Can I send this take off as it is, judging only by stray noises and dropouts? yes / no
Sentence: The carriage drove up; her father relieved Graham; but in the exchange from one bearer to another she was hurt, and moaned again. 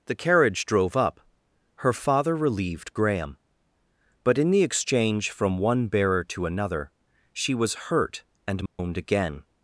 no